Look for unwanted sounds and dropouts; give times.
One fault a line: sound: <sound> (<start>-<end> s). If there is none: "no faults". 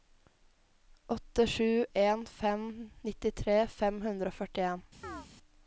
sound: chirp (5.0-5.3 s)